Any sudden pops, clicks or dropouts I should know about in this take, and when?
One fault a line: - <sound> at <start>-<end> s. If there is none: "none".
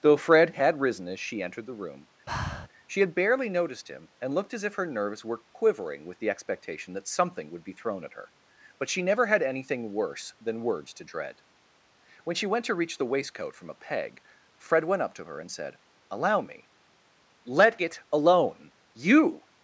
- breath at 2.3-2.7 s